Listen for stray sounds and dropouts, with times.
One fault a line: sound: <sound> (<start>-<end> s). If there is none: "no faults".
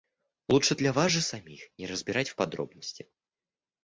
no faults